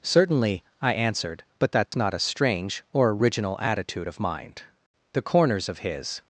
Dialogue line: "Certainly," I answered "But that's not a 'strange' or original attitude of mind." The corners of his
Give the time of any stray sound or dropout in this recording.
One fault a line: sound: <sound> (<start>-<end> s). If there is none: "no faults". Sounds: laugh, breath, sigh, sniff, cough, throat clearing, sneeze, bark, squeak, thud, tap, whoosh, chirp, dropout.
sound: dropout (1.9-1.9 s)